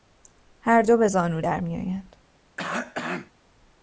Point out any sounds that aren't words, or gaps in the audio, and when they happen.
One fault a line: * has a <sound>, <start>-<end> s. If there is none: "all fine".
* has a cough, 2.6-3.3 s